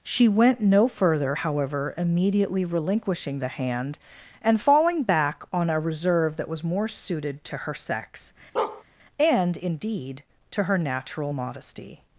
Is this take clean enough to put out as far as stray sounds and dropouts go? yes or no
no